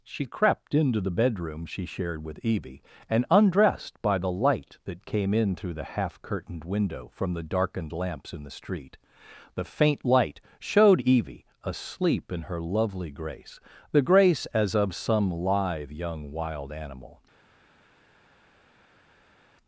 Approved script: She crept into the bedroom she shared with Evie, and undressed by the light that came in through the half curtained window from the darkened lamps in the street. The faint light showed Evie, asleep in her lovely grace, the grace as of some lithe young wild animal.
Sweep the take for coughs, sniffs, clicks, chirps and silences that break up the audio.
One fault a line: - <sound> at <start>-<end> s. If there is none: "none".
none